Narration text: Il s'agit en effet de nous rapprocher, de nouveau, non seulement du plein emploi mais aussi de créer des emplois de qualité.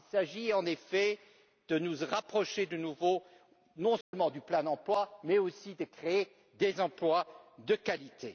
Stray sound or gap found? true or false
true